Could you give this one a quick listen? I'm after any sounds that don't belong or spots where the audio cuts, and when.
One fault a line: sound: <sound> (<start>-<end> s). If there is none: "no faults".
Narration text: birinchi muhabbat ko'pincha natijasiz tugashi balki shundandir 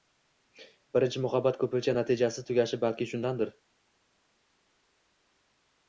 no faults